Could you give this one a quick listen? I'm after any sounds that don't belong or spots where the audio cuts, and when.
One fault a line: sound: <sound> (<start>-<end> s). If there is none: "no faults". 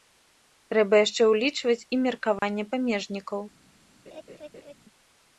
sound: dropout (2.4-2.4 s)
sound: laugh (4.1-4.7 s)